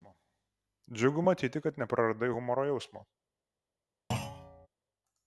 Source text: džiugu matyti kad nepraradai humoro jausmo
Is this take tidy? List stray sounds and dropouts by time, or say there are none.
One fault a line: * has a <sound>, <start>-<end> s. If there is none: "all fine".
* has a thud, 4.1-4.7 s